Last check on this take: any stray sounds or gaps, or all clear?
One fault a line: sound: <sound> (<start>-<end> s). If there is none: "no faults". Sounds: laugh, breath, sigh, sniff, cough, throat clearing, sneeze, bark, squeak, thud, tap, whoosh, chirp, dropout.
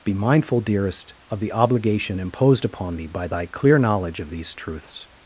no faults